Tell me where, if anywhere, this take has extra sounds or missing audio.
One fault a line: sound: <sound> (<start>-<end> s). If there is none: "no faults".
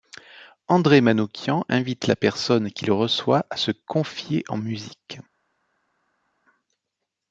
no faults